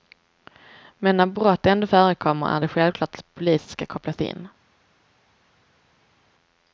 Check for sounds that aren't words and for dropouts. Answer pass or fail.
pass